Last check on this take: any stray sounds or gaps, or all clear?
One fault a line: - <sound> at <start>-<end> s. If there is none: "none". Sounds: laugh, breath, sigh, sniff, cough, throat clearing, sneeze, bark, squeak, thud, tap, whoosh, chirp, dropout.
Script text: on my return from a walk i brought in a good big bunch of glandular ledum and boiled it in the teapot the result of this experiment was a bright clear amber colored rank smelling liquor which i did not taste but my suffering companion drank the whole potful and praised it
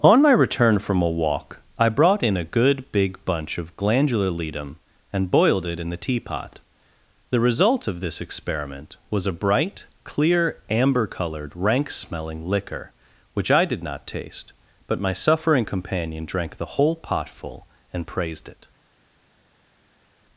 none